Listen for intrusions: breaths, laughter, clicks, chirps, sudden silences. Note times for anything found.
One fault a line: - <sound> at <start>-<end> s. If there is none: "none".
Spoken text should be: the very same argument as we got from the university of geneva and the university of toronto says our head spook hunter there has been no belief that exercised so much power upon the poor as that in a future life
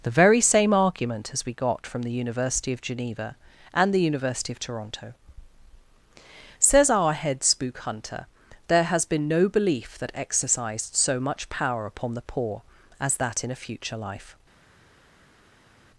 none